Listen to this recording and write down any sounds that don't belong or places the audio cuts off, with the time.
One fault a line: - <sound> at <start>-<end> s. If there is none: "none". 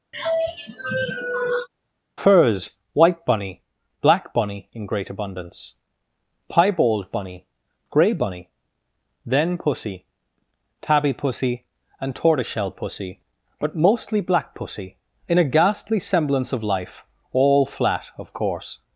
- sigh at 0.1-1.7 s